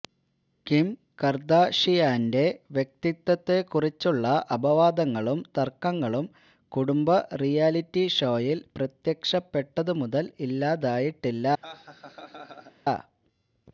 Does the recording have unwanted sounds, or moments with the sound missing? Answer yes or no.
yes